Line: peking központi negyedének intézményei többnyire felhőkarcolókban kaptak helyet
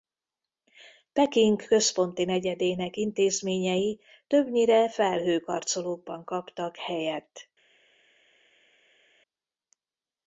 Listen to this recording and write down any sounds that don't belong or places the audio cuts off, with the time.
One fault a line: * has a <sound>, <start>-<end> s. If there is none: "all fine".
all fine